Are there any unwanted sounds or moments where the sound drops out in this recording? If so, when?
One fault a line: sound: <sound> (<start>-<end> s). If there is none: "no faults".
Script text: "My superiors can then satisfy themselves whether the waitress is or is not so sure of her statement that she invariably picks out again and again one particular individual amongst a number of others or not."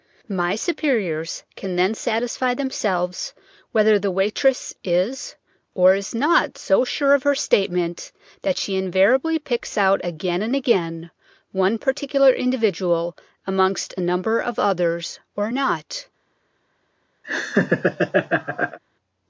sound: laugh (17.2-18.8 s)